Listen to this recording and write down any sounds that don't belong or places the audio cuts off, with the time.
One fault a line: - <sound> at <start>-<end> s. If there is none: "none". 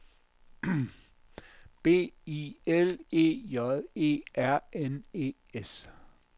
none